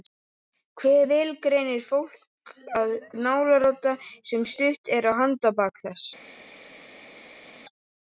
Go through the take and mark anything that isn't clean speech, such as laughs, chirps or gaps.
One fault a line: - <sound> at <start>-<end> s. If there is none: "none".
none